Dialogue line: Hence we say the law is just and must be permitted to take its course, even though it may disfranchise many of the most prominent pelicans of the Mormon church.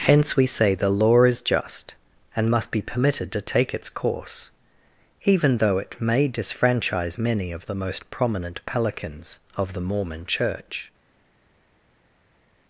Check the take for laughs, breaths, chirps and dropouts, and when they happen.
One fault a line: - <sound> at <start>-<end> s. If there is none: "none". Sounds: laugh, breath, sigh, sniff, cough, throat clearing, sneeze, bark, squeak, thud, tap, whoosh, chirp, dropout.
none